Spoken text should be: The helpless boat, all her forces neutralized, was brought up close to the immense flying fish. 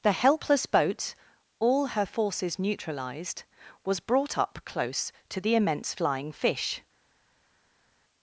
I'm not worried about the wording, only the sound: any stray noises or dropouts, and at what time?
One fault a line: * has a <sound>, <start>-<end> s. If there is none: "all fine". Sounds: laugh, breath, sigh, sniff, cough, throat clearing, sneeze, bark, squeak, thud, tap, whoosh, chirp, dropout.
all fine